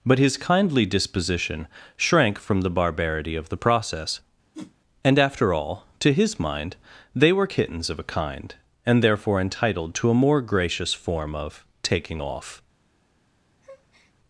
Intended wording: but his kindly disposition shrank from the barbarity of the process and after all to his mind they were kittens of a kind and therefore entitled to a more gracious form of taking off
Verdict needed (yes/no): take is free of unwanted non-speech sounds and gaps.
no